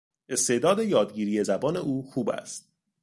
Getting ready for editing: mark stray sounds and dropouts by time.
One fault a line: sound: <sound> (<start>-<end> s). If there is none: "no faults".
no faults